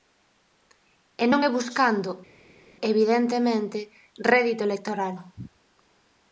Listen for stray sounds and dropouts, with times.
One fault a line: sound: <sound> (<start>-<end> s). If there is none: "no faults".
no faults